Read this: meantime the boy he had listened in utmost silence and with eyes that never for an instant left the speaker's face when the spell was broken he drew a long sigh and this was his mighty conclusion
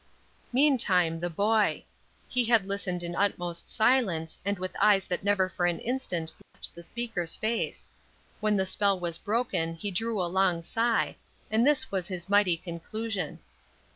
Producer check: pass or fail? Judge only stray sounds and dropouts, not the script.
fail